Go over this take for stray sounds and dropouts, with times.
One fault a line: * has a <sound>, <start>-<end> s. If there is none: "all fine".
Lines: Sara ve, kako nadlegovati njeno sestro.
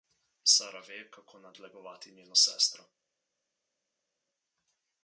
all fine